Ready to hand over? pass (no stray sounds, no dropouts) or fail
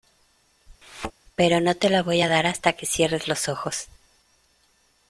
fail